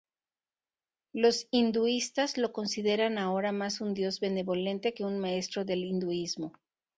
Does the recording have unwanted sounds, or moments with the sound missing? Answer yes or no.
no